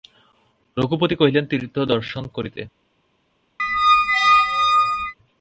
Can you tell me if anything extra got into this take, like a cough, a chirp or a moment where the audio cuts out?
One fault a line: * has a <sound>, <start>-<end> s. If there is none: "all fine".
* has a squeak, 3.6-5.1 s